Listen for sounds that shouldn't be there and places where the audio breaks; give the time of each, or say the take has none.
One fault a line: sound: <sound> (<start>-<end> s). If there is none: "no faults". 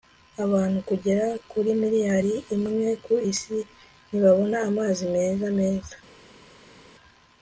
no faults